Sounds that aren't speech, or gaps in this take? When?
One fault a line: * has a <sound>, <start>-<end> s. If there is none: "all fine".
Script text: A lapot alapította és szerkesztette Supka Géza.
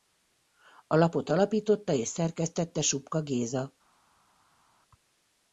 all fine